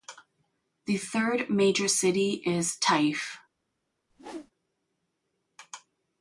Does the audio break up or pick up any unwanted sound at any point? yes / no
yes